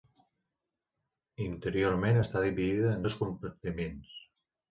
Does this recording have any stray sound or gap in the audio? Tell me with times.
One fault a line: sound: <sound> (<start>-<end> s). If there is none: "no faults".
no faults